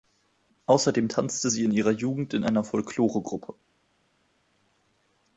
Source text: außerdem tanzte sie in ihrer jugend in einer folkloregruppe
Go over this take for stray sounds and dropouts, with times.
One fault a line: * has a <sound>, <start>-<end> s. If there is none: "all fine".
all fine